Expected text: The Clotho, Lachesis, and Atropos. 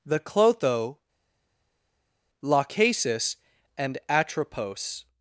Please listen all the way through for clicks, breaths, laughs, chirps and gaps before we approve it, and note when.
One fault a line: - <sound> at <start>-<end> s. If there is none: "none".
none